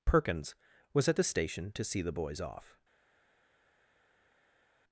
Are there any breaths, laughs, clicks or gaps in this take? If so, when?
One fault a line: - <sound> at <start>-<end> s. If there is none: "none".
none